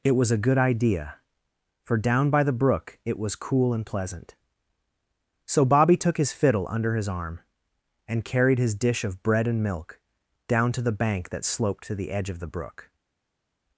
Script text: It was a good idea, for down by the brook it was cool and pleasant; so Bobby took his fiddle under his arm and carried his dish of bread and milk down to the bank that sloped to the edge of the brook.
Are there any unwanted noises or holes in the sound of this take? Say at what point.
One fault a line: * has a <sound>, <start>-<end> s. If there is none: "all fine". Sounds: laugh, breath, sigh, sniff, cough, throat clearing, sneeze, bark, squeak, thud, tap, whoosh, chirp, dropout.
all fine